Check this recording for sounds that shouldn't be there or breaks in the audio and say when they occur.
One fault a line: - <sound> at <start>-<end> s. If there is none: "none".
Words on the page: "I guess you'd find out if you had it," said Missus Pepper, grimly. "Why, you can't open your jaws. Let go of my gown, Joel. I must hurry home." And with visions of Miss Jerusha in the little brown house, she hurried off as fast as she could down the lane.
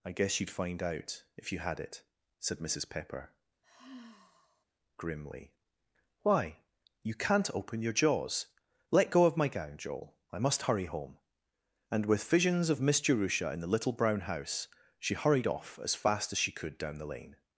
- sigh at 3.6-4.6 s